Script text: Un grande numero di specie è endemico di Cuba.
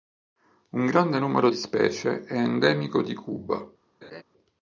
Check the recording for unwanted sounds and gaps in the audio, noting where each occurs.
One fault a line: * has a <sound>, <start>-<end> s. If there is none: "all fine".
* has a laugh, 4.0-4.2 s